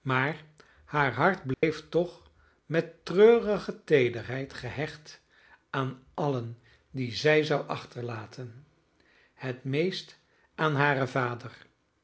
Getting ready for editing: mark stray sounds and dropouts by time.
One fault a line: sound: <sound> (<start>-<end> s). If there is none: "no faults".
sound: dropout (1.5-1.6 s)